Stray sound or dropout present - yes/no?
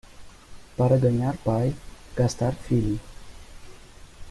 no